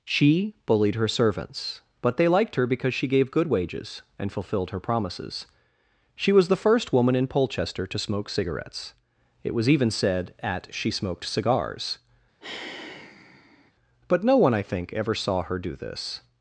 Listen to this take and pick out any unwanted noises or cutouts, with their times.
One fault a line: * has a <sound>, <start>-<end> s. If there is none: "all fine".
* has a sigh, 12.4-13.7 s